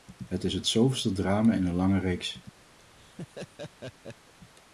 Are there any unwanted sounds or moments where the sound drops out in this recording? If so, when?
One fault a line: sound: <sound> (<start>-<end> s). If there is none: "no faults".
sound: laugh (2.8-4.3 s)